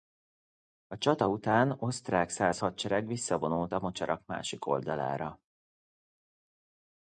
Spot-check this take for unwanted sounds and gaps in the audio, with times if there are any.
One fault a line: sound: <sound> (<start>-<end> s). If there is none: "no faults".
no faults